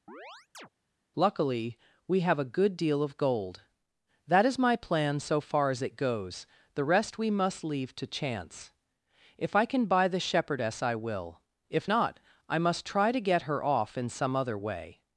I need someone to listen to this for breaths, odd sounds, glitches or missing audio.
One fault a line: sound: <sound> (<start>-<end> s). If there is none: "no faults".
sound: chirp (0.1-0.7 s)